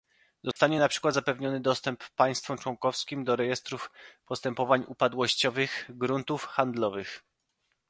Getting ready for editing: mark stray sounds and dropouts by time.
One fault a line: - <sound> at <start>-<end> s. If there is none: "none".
- dropout at 0.5-0.6 s